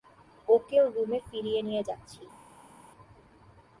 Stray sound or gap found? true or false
false